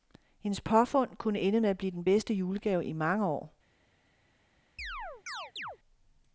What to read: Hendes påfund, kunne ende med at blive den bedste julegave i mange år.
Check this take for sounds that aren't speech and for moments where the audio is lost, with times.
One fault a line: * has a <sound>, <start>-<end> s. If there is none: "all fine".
* has a chirp, 4.8-5.8 s